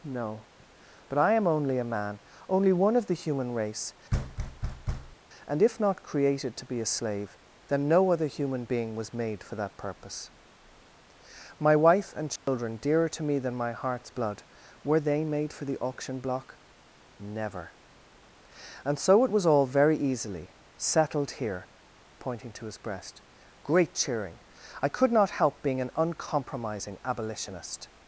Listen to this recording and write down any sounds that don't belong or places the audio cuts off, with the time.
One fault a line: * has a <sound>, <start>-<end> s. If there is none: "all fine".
* has a thud, 4.1-5.2 s
* has a dropout, 12.4-12.5 s